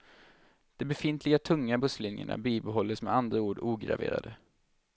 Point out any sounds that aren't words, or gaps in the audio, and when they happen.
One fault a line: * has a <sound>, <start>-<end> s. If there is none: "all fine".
all fine